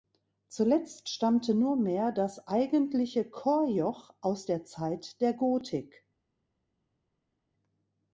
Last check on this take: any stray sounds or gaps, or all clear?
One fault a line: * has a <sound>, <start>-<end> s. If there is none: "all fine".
all fine